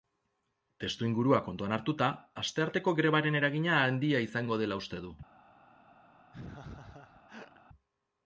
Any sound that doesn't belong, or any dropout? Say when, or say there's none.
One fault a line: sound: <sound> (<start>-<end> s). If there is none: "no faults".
sound: laugh (6.3-7.6 s)